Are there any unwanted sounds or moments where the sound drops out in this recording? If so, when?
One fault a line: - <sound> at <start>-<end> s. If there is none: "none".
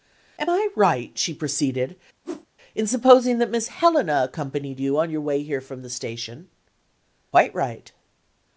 - whoosh at 2.2-2.5 s